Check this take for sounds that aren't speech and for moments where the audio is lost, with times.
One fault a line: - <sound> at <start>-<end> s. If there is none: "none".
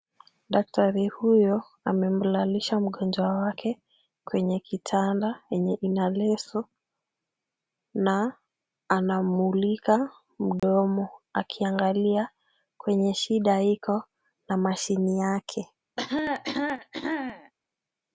- dropout at 10.6-10.6 s
- cough at 16.0-17.5 s